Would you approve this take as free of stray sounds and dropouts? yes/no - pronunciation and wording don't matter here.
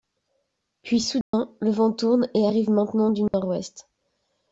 no